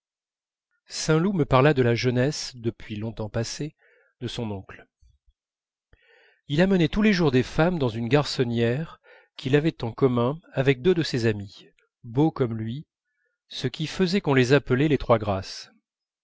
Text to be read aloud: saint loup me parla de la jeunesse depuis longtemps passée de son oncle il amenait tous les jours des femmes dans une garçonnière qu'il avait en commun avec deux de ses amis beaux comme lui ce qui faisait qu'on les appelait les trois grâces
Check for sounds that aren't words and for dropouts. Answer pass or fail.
pass